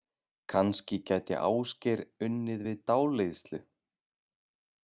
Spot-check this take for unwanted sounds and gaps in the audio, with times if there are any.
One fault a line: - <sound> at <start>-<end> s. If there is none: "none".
none